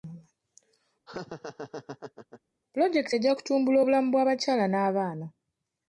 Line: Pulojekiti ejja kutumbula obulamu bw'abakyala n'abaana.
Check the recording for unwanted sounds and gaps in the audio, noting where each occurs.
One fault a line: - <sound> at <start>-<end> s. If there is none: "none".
- laugh at 1.1-2.4 s